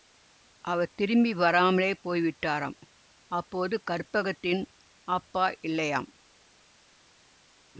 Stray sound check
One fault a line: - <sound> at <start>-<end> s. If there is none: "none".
none